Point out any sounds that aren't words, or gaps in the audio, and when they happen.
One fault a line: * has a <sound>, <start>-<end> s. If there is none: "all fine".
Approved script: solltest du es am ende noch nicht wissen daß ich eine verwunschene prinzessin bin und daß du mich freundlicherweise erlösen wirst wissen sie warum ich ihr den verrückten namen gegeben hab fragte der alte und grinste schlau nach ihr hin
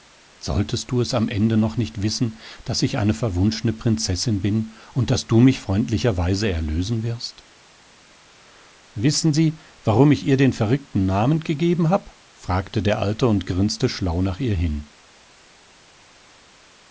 all fine